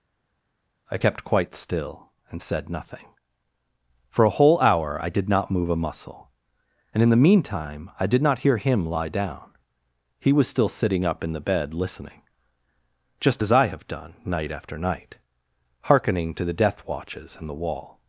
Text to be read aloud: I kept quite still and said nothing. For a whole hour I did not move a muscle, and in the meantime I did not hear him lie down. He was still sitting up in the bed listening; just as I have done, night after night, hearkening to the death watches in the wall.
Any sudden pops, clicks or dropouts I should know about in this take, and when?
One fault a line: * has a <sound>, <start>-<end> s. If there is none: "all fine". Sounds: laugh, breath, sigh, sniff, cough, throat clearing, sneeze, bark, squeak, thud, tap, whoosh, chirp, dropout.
all fine